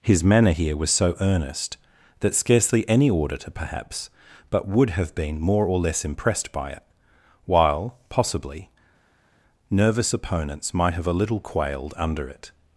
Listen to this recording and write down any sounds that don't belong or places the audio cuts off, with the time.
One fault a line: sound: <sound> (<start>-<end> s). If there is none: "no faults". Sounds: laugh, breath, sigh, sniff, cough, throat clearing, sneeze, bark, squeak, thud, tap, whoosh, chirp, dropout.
no faults